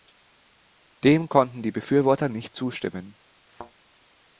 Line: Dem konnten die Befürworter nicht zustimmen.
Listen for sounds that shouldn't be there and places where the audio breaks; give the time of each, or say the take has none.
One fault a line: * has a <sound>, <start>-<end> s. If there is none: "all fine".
* has a thud, 3.5-3.7 s